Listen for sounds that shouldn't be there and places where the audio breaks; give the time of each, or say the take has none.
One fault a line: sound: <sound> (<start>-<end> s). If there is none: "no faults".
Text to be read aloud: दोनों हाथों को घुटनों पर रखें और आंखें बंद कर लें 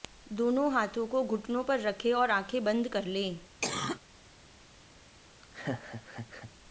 sound: cough (3.6-4.0 s)
sound: laugh (5.4-6.5 s)